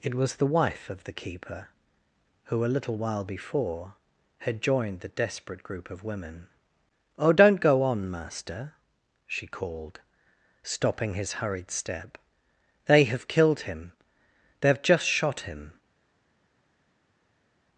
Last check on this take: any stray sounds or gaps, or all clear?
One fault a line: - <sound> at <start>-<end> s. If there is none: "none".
none